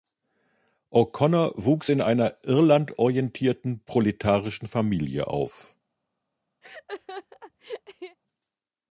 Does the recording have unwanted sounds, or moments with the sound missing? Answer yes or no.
yes